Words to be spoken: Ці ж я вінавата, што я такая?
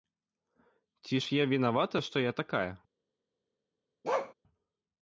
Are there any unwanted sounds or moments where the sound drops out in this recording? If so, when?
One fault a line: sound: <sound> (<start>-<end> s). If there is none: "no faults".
sound: bark (4.0-4.3 s)